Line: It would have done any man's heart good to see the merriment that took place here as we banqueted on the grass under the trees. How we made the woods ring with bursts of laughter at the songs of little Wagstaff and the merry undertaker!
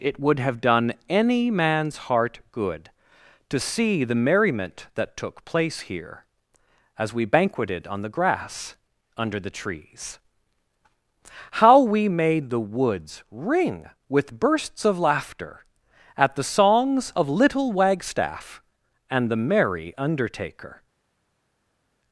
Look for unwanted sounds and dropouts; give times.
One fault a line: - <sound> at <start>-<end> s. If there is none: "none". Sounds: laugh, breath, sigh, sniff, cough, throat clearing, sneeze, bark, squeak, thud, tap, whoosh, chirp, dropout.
none